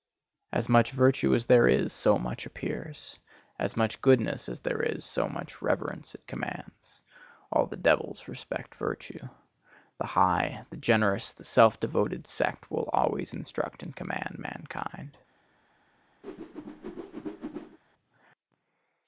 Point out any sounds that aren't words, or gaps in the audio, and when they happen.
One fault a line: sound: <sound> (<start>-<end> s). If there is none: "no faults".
sound: whoosh (16.2-17.8 s)